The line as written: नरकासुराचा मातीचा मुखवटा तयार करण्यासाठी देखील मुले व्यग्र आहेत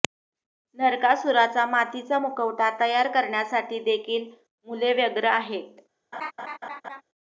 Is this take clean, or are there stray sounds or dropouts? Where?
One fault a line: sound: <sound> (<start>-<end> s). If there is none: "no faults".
sound: laugh (6.1-7.0 s)